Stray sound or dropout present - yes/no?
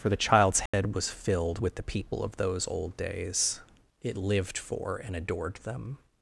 yes